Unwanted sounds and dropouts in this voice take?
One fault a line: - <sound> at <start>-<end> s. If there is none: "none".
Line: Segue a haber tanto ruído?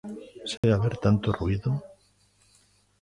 - dropout at 0.6-0.6 s